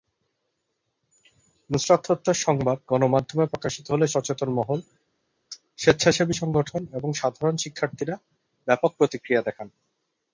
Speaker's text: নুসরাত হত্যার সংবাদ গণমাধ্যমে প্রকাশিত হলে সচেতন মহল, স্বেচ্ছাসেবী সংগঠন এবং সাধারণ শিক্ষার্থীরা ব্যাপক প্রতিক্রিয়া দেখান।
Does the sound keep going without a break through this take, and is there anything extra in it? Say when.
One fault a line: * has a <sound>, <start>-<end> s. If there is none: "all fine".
all fine